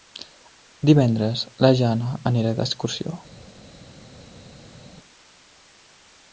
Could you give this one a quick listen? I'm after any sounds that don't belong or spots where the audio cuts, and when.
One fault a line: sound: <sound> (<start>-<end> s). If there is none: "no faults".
no faults